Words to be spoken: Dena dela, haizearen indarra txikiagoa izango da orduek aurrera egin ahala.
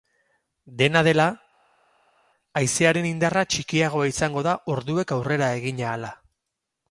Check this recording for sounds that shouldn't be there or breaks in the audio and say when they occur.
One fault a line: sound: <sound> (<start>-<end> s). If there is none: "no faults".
no faults